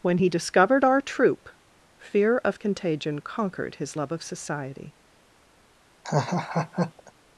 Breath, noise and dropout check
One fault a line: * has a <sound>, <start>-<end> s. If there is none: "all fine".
* has a laugh, 6.0-7.1 s